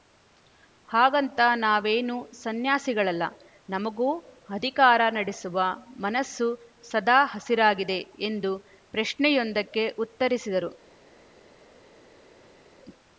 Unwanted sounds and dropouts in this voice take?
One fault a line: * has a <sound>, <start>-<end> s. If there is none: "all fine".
all fine